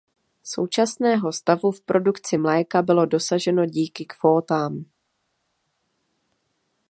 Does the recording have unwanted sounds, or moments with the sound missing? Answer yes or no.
no